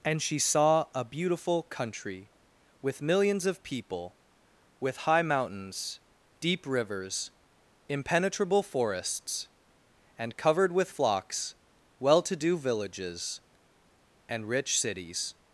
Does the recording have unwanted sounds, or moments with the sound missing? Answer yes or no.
no